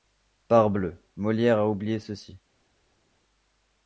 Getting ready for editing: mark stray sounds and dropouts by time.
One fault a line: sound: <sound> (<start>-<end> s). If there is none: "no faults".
no faults